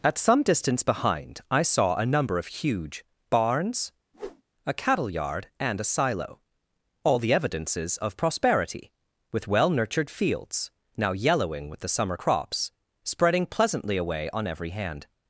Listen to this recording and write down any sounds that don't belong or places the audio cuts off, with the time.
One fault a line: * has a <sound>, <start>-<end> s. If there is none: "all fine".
* has a whoosh, 4.1-4.4 s